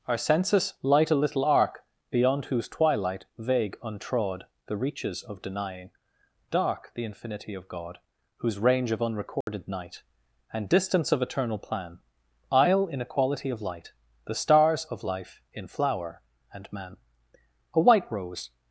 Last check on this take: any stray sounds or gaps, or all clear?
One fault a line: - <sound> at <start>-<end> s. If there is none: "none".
- dropout at 9.4-9.5 s